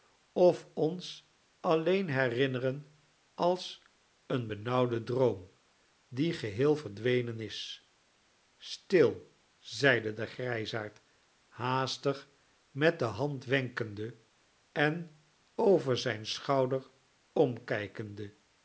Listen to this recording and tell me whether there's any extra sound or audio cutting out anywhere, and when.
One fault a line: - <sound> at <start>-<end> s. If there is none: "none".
none